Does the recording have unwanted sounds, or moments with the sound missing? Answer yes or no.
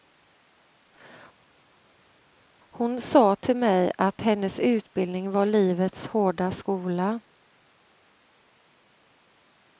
no